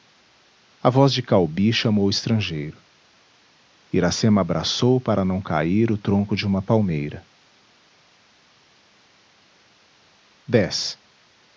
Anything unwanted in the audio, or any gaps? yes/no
no